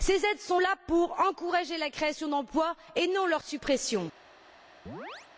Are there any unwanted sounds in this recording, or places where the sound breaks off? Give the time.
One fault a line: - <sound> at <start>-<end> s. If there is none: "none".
- chirp at 4.9-5.3 s